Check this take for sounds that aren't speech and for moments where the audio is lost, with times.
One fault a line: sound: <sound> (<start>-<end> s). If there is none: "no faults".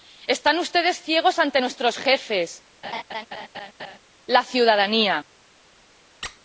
sound: laugh (2.8-4.0 s)
sound: squeak (6.2-6.4 s)